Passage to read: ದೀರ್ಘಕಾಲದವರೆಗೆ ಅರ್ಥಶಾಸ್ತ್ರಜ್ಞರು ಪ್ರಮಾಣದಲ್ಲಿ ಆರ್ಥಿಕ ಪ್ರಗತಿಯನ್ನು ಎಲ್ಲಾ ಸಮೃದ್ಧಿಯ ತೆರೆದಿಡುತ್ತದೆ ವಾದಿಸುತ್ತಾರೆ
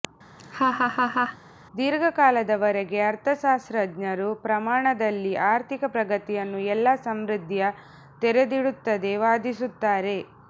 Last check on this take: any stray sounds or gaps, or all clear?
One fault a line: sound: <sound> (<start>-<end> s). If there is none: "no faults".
sound: laugh (0.4-1.4 s)